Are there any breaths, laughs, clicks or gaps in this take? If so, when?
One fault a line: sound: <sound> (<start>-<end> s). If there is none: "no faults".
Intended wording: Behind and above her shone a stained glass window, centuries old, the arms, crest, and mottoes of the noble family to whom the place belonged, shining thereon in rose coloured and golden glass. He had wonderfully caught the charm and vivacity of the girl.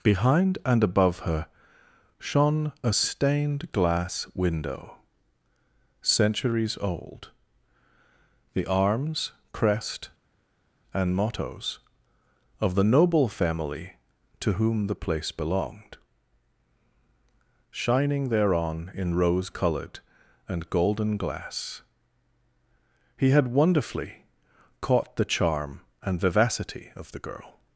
no faults